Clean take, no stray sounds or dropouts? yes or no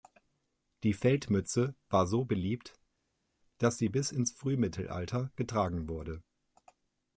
yes